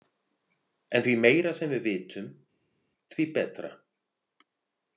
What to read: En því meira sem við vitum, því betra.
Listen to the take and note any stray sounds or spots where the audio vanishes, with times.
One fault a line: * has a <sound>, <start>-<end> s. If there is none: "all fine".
all fine